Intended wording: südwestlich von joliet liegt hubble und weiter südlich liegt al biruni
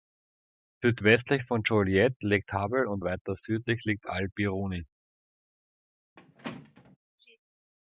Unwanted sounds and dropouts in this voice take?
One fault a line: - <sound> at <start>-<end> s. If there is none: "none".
- squeak at 6.2-7.0 s